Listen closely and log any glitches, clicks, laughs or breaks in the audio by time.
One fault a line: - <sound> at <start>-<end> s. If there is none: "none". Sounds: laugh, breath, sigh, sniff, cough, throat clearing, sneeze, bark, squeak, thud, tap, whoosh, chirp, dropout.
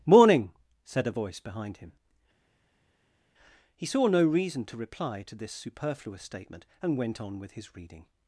none